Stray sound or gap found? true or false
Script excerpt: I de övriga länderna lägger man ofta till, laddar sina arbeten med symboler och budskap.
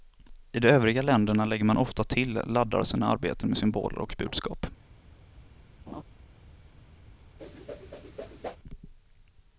true